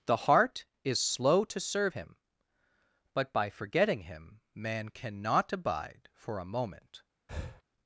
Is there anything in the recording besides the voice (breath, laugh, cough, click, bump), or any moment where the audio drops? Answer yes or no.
yes